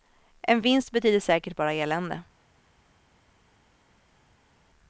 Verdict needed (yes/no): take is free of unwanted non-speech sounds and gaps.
yes